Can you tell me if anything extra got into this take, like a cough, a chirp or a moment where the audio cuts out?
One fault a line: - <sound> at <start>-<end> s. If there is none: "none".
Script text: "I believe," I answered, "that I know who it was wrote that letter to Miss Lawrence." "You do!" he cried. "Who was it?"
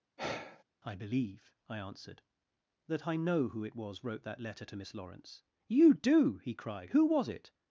- sigh at 0.2-0.6 s